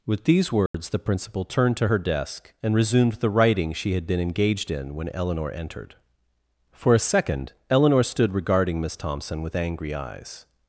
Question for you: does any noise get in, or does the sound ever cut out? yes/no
yes